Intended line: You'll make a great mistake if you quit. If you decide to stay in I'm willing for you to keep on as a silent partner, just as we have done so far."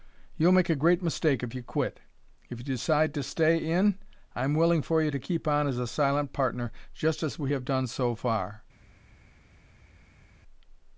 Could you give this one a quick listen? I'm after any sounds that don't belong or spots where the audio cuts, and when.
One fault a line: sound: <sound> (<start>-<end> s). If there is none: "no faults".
no faults